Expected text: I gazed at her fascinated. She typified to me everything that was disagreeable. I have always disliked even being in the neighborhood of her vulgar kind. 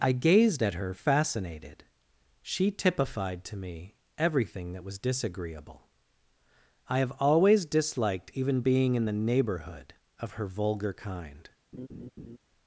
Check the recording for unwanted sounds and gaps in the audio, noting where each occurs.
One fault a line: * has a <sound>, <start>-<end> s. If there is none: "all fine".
* has a laugh, 11.7-12.4 s